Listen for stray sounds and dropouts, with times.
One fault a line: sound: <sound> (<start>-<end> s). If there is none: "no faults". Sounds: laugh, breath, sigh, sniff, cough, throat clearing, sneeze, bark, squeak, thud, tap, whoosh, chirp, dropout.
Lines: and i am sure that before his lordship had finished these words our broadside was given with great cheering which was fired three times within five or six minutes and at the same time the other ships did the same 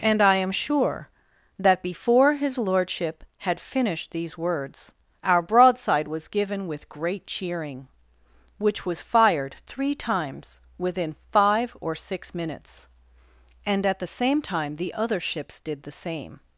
no faults